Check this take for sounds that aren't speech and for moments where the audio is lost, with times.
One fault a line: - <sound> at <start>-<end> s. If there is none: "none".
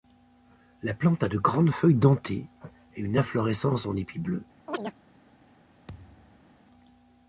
- chirp at 4.7-4.9 s
- thud at 5.9-6.5 s